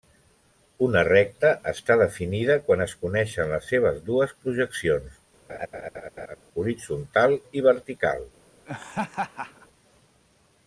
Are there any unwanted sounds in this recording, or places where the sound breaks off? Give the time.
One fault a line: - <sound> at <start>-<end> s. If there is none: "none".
- laugh at 5.5-6.4 s
- laugh at 8.7-9.7 s